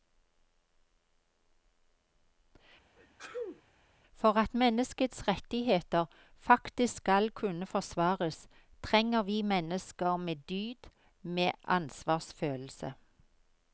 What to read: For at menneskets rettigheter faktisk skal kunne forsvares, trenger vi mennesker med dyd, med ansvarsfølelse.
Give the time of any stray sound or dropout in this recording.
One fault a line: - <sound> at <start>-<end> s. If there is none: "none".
- sneeze at 3.0-3.6 s